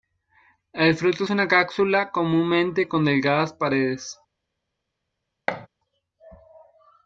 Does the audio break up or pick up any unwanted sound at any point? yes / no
yes